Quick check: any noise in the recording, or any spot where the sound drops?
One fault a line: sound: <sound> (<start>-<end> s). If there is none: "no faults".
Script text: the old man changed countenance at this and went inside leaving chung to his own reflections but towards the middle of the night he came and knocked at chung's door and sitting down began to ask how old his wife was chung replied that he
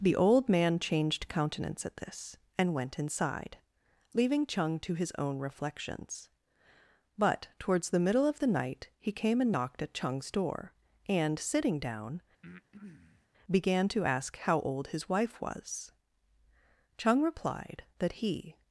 sound: breath (12.4-13.3 s)